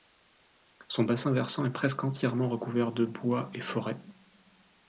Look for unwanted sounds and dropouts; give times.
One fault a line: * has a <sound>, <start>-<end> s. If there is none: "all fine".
all fine